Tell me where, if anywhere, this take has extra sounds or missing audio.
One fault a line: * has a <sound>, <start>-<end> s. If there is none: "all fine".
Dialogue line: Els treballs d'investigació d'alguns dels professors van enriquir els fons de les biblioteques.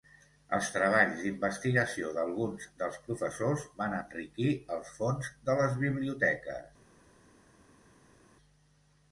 all fine